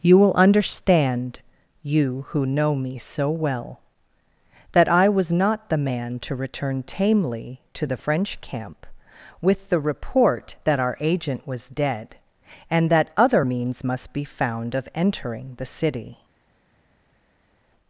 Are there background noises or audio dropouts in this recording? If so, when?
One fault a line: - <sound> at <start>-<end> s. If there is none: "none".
none